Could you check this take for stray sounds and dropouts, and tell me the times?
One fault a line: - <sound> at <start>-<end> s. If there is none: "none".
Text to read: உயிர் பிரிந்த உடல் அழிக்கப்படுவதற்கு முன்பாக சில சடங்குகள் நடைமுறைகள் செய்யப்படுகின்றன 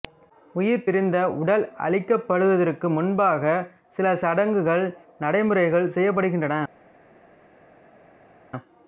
none